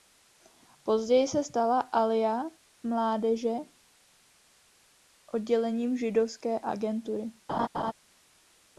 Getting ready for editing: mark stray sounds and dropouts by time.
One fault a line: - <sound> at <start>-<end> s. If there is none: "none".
- laugh at 7.5-7.9 s